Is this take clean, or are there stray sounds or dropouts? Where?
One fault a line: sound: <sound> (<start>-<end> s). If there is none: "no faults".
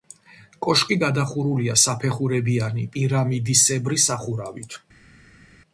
no faults